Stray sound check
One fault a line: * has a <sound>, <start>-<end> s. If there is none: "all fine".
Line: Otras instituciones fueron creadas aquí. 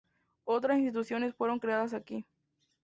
all fine